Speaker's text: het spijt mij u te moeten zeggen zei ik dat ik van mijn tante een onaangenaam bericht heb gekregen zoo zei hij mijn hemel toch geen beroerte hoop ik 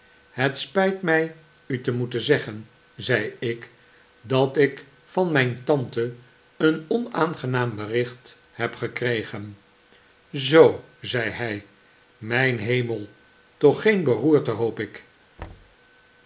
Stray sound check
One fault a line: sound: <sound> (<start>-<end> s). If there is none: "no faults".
sound: thud (15.4-15.8 s)